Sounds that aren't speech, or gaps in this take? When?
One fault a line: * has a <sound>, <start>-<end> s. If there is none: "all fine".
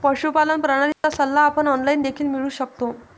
* has a dropout, 0.9-1.0 s